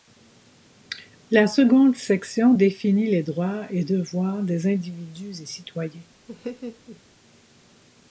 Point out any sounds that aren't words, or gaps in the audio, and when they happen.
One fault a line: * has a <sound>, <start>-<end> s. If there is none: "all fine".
* has a laugh, 6.3-7.0 s